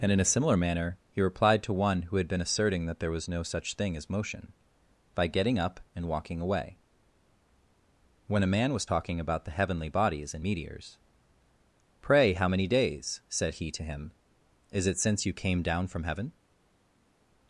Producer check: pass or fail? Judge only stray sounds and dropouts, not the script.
pass